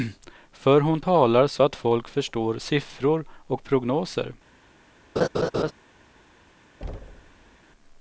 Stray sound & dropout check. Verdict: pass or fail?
fail